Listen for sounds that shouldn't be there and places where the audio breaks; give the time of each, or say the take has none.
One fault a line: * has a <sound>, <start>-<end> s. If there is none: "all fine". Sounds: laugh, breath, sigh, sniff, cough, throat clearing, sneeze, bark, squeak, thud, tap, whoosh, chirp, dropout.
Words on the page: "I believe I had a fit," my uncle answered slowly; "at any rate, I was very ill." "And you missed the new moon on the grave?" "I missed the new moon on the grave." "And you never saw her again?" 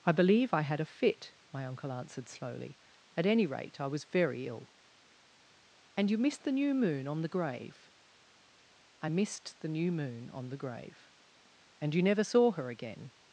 all fine